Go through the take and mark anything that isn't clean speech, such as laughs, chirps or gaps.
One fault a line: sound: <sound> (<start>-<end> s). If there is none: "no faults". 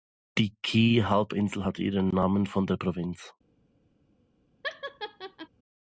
sound: laugh (4.6-5.5 s)